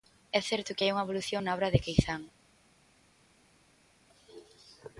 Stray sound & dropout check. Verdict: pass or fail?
pass